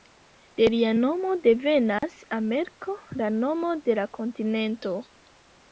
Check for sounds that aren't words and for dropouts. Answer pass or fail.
fail